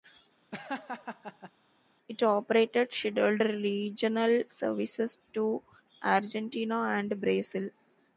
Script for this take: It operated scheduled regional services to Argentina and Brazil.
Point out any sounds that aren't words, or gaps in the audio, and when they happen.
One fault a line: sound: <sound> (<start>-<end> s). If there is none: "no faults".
sound: laugh (0.5-1.5 s)